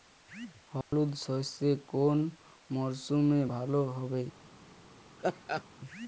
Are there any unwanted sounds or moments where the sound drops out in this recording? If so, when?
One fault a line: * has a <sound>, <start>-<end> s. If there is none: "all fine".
* has a dropout, 0.8-0.9 s
* has a laugh, 5.2-5.6 s